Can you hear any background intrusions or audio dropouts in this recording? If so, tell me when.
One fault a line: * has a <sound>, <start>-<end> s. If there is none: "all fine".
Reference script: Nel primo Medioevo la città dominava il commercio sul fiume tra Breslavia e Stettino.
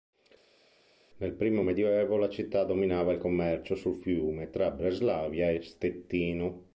all fine